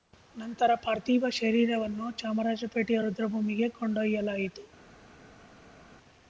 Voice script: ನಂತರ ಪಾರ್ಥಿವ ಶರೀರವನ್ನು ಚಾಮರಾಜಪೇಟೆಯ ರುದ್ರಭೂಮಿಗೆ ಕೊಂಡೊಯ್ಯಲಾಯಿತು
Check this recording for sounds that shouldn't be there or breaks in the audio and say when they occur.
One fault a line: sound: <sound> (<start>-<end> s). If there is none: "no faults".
no faults